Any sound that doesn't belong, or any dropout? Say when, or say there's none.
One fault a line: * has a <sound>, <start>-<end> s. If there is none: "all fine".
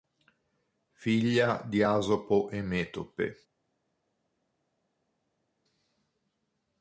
all fine